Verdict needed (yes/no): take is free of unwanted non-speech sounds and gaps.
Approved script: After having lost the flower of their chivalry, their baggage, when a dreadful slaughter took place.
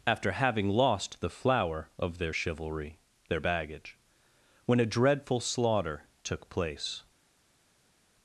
yes